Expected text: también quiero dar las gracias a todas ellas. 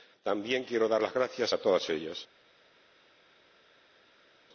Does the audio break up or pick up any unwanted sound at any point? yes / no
no